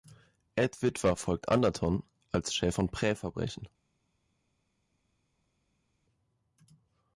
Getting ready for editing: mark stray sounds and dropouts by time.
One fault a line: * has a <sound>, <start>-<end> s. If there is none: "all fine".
all fine